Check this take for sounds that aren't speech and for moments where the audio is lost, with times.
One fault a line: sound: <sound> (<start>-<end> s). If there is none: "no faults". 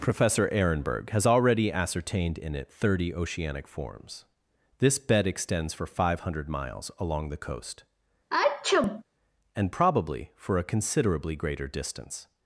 sound: sneeze (8.3-9.0 s)